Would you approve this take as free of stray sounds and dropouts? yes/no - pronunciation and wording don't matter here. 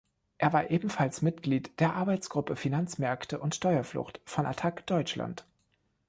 yes